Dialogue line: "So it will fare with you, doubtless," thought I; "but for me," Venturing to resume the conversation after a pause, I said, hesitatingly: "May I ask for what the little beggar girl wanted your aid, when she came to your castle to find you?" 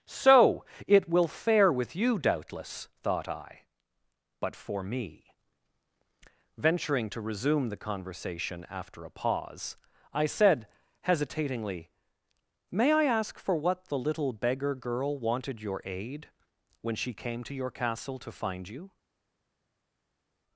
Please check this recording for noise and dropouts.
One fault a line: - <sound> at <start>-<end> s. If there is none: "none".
none